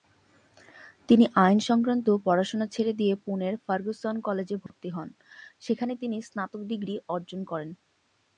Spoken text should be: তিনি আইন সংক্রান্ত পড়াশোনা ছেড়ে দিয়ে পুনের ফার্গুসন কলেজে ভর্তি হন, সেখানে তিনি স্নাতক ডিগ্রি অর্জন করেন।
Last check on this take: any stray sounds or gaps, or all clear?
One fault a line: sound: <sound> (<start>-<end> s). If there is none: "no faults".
sound: dropout (4.7-4.7 s)